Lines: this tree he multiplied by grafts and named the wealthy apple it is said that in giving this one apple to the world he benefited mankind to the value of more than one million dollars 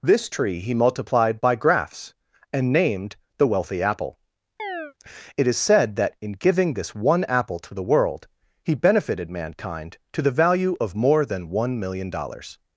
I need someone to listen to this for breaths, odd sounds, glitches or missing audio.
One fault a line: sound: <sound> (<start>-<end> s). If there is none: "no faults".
sound: chirp (4.6-4.9 s)